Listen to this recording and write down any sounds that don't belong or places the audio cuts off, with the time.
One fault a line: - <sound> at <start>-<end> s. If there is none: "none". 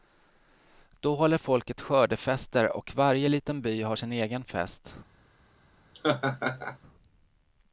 - laugh at 5.9-6.8 s